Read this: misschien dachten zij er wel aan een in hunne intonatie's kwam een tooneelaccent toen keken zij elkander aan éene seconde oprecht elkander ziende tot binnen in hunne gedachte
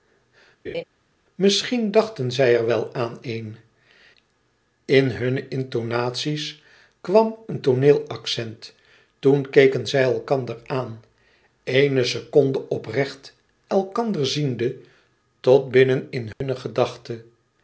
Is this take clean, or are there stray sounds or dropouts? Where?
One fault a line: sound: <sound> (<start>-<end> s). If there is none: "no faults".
sound: laugh (0.6-0.8 s)
sound: dropout (16.3-16.4 s)